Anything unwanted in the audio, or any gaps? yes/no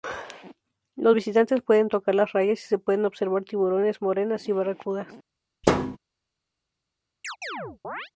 yes